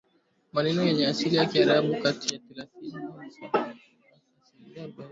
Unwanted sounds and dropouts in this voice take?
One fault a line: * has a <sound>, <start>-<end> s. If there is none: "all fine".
all fine